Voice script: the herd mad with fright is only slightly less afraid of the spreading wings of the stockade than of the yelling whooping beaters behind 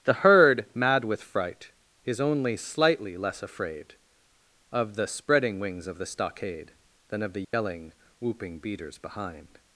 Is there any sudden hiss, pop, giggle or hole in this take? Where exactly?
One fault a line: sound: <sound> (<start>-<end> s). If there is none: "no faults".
sound: dropout (7.4-7.5 s)